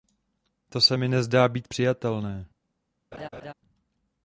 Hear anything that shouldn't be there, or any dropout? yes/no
yes